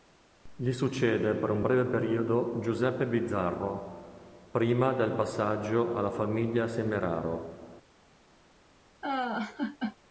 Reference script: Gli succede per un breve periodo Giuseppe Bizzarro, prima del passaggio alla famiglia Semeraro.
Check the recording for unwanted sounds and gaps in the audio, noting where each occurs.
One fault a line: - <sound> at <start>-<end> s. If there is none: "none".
- laugh at 9.0-10.0 s